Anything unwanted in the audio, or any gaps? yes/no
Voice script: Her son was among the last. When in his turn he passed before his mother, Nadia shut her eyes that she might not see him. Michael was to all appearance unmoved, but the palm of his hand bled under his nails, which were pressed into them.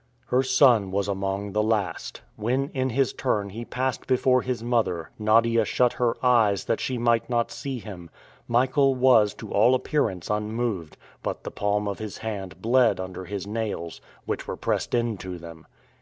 no